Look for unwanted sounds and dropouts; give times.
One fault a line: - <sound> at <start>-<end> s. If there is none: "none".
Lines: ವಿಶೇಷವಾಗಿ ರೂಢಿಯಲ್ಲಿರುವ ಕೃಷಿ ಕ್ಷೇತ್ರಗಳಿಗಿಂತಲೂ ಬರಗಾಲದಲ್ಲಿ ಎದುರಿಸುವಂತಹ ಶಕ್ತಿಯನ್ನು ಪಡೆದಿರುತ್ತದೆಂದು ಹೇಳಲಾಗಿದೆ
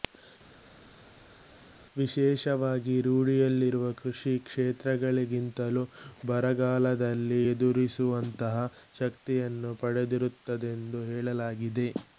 none